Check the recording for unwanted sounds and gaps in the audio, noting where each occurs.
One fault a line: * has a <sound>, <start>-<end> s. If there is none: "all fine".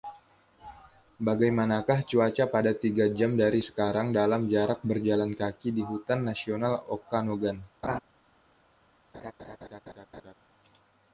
* has a laugh, 7.8-8.0 s
* has a laugh, 9.1-10.3 s